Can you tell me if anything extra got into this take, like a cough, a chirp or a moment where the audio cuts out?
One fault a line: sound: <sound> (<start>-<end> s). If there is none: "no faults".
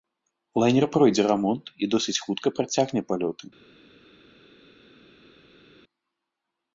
no faults